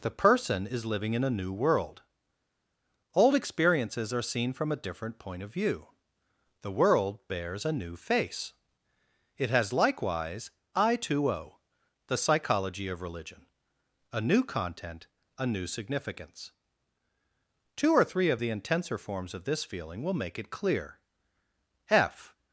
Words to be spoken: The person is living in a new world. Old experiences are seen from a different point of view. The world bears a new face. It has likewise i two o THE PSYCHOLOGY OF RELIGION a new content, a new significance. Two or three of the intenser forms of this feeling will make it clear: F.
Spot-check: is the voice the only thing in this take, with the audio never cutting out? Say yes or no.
yes